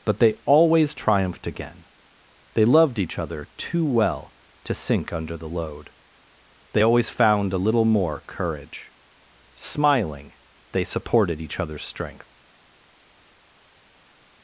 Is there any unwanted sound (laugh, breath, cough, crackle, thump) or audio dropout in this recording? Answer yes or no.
no